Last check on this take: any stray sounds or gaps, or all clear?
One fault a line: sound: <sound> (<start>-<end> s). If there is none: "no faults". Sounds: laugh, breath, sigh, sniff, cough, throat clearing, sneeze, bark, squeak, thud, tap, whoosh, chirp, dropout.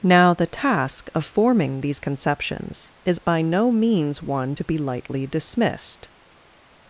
no faults